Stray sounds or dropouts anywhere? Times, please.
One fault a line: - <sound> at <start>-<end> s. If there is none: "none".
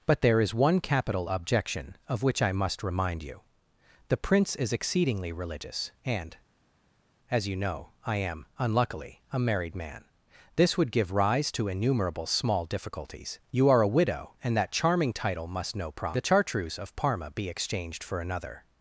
none